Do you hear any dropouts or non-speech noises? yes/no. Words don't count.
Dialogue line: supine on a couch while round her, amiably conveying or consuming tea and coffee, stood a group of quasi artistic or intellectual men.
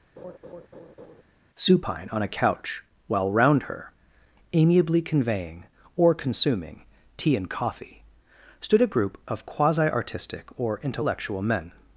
yes